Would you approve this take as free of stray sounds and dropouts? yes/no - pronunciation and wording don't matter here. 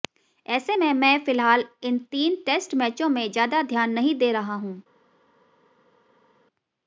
yes